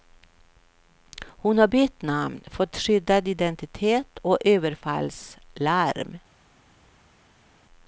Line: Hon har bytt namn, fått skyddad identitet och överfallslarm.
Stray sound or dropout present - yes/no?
no